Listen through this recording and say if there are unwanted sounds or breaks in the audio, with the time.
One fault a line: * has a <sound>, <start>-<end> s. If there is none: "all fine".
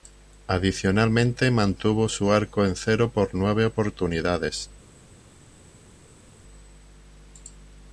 all fine